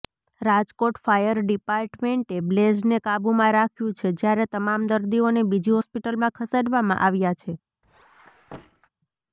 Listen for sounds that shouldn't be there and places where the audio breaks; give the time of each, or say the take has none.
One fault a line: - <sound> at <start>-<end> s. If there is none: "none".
- squeak at 7.8-8.9 s